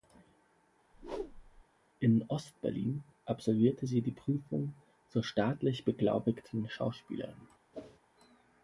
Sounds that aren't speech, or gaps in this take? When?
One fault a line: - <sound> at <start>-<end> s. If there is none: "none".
- whoosh at 0.9-1.6 s
- whoosh at 7.7-8.0 s